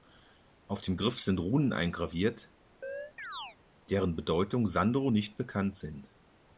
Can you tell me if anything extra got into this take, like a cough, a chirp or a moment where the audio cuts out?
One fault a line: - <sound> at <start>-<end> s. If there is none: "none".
- chirp at 2.8-3.6 s